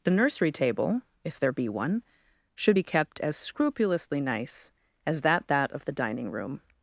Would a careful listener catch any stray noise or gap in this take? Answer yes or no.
no